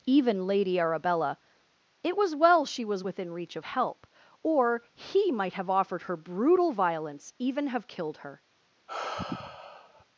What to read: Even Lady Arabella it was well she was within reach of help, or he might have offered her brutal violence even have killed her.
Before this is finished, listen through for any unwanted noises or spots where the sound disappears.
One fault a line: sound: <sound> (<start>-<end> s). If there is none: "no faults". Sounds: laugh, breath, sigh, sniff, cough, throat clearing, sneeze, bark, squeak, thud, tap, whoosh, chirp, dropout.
sound: sigh (8.9-10.0 s)